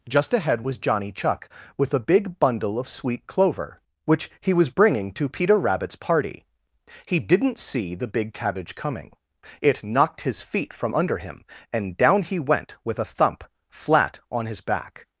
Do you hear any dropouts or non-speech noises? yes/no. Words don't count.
no